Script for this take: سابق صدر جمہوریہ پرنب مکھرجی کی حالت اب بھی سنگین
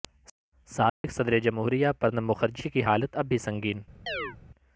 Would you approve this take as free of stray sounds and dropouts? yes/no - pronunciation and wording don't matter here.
no